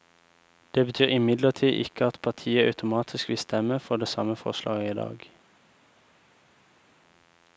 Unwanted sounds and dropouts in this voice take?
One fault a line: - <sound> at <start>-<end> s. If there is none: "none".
none